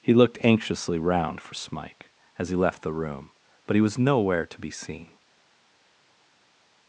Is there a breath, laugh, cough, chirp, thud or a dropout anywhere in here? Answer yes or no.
no